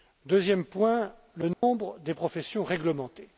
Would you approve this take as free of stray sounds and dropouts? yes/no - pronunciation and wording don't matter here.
no